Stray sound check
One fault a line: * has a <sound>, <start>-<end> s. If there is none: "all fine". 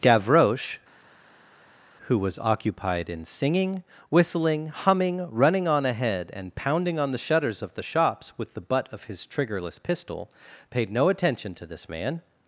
all fine